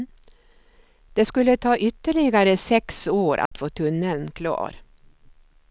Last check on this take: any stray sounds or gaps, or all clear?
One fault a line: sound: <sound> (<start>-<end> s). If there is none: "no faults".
sound: dropout (3.5-3.5 s)